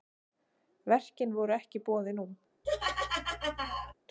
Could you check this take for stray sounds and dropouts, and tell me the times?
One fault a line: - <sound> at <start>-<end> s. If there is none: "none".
- laugh at 2.6-3.9 s